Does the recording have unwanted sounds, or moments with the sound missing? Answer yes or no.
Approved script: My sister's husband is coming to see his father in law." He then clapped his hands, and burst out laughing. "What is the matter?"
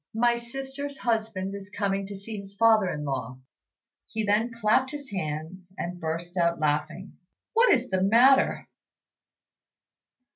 no